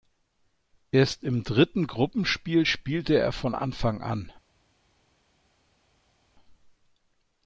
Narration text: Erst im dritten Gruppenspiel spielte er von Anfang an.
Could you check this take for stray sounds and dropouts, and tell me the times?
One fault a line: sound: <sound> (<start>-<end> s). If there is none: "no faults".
no faults